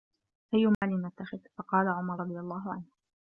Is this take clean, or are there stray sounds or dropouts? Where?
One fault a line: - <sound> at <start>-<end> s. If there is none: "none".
- dropout at 0.7-0.8 s